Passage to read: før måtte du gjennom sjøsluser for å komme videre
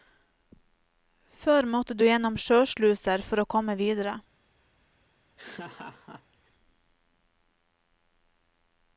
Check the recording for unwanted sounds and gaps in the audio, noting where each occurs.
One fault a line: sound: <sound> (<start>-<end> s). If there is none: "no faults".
sound: laugh (5.4-6.5 s)